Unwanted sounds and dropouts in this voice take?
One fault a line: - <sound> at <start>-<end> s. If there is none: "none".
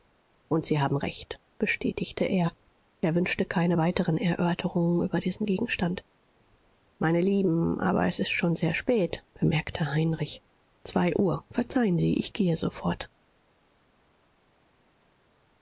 none